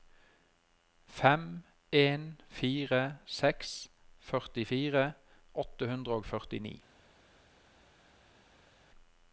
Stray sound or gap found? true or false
false